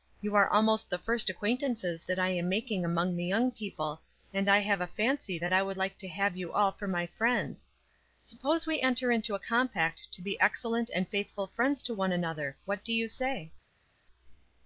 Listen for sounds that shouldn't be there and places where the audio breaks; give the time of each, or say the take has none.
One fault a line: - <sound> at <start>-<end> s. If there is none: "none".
none